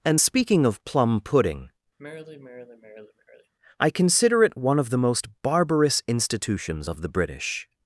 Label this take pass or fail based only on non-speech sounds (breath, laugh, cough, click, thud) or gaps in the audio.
fail